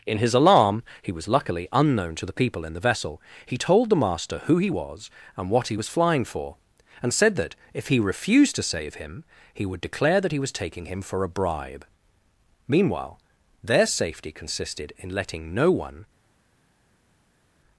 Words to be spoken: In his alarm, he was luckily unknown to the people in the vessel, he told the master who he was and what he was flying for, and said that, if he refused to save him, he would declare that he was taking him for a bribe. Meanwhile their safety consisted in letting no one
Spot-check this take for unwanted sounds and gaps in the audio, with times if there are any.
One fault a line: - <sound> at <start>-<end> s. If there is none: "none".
none